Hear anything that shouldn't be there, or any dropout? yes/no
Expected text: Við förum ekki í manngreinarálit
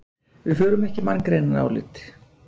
no